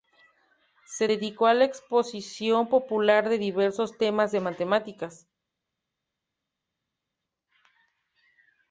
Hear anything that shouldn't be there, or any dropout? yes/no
no